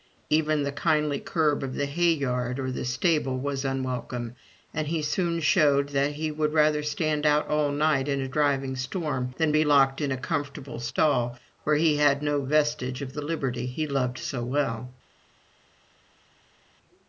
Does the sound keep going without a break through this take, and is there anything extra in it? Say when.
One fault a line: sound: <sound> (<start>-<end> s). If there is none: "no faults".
no faults